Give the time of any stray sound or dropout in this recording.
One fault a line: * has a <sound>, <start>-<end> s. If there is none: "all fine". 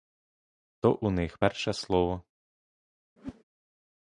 * has a whoosh, 3.2-3.4 s